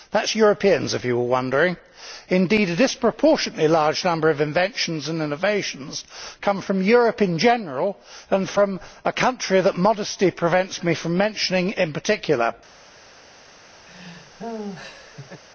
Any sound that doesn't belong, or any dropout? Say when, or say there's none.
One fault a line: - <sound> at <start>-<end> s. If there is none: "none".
- laugh at 13.9-15.4 s